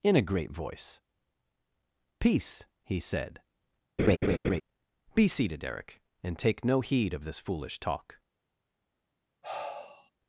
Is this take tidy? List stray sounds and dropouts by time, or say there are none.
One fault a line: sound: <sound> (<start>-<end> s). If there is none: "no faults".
sound: laugh (4.0-4.6 s)
sound: sigh (9.4-10.1 s)